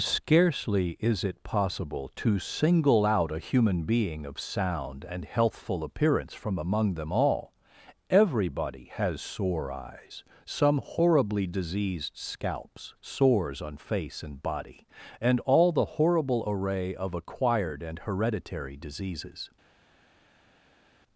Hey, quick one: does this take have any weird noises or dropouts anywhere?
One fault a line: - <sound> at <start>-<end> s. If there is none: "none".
none